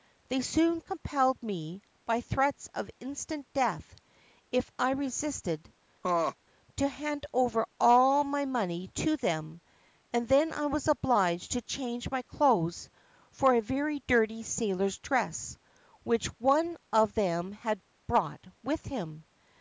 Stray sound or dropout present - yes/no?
yes